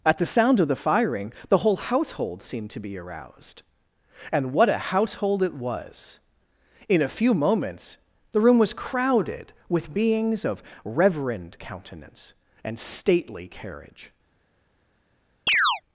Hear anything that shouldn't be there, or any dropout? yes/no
yes